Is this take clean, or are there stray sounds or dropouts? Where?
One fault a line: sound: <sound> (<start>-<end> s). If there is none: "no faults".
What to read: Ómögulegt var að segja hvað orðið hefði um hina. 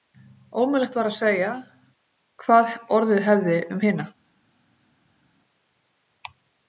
no faults